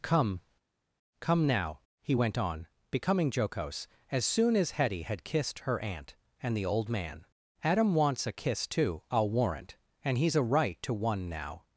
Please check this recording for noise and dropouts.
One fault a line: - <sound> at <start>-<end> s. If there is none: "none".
none